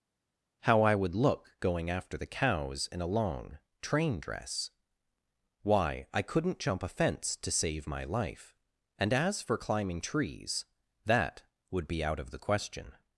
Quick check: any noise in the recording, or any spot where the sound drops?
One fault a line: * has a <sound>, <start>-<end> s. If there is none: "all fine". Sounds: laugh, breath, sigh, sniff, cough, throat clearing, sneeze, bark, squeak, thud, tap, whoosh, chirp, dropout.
all fine